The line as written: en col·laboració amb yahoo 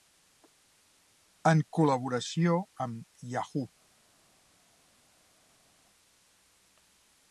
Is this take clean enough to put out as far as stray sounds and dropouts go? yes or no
yes